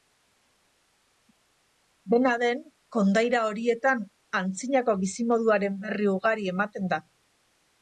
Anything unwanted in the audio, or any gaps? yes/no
no